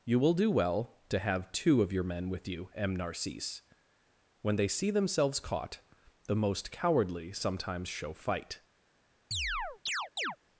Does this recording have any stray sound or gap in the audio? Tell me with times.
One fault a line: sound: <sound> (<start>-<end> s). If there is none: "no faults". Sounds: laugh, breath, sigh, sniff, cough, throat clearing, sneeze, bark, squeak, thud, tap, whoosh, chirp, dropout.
sound: chirp (9.3-10.4 s)